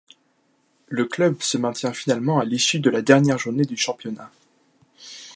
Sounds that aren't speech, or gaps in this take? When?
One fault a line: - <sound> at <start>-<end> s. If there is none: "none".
none